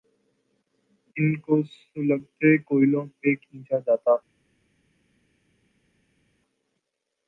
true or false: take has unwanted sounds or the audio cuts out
false